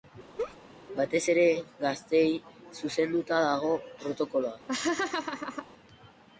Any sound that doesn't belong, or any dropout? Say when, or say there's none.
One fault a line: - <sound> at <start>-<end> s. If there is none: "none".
- laugh at 0.4-0.6 s
- laugh at 4.7-5.7 s